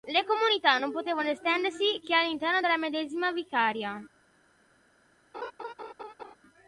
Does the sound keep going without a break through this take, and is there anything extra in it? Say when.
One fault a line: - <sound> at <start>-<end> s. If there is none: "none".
- laugh at 5.3-6.4 s